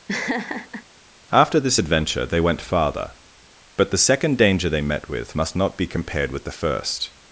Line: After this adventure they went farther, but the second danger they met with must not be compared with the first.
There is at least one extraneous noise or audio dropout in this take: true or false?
true